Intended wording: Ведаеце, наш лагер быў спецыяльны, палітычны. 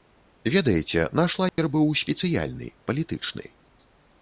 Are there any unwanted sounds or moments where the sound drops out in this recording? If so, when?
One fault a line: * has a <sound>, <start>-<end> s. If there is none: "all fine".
* has a dropout, 1.5-1.6 s